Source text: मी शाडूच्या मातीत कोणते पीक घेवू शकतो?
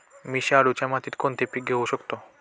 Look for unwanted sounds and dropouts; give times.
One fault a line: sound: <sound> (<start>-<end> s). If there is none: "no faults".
no faults